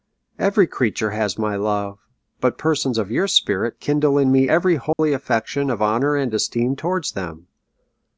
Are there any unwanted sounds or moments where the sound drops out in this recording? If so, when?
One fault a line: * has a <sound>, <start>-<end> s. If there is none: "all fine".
* has a dropout, 4.9-5.0 s